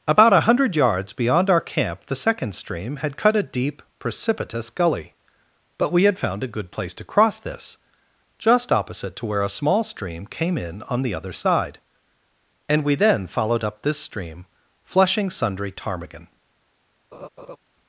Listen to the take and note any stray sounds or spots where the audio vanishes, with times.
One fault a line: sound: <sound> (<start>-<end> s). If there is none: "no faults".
sound: laugh (17.1-17.6 s)